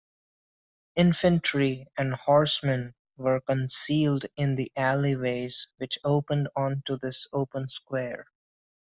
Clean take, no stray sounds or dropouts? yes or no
yes